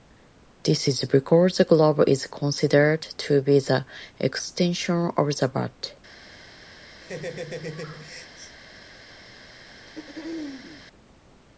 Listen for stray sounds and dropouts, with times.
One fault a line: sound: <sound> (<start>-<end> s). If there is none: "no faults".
sound: laugh (7.0-8.6 s)
sound: throat clearing (9.9-10.9 s)